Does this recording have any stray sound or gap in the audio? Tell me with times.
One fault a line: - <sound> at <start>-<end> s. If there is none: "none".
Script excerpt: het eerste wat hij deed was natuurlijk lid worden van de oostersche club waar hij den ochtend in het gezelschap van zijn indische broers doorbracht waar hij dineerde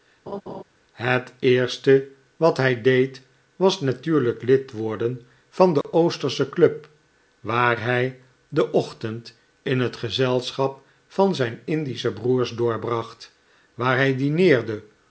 - laugh at 0.3-0.6 s
- dropout at 5.8-5.8 s